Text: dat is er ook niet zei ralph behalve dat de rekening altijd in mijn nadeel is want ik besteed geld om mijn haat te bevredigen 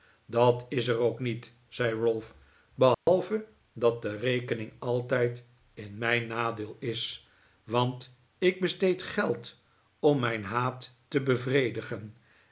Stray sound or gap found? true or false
true